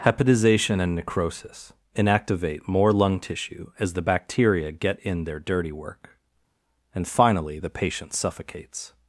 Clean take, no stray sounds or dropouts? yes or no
yes